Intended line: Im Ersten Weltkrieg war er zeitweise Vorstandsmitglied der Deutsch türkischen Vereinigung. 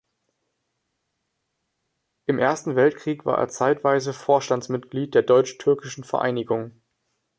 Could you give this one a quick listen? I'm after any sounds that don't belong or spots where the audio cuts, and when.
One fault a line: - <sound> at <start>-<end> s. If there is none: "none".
none